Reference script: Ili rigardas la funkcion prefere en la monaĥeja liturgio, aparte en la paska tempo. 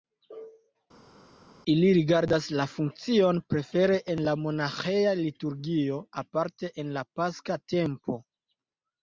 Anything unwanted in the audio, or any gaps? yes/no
no